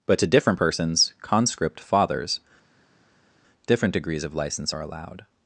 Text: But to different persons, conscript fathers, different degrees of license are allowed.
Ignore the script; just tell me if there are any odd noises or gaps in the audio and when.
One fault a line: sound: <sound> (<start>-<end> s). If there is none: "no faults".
no faults